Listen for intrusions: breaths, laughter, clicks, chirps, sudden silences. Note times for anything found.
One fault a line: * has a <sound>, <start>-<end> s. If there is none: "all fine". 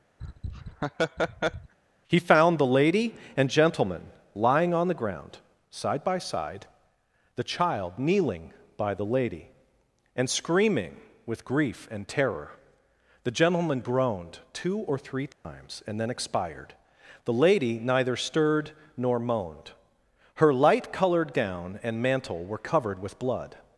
* has a laugh, 0.2-1.7 s
* has a dropout, 15.3-15.4 s